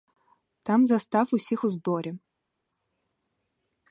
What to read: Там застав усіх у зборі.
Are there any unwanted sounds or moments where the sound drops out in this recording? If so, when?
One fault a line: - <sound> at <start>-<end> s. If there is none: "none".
none